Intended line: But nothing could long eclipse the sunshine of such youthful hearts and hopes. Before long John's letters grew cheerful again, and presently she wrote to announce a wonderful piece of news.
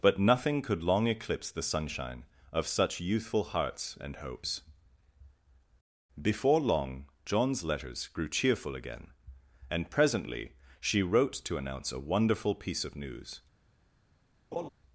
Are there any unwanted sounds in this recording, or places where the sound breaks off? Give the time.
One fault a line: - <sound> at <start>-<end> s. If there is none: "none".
- laugh at 14.5-14.7 s